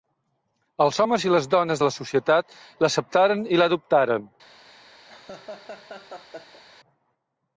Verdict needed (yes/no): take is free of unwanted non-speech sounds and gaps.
no